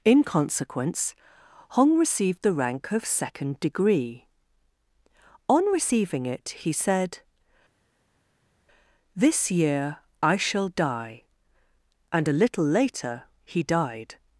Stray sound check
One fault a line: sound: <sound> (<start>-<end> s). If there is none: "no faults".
no faults